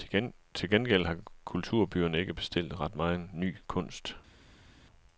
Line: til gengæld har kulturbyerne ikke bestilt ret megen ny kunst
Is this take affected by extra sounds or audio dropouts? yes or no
no